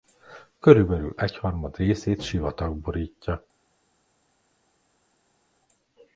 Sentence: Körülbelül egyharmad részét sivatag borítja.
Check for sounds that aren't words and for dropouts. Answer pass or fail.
pass